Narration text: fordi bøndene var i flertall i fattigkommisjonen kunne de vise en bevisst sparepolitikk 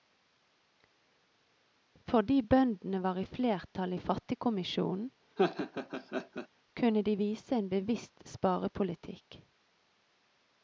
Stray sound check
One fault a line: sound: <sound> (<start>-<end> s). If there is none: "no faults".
sound: laugh (5.4-6.5 s)